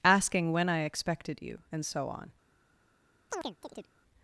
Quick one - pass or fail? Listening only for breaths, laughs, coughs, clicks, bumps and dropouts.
fail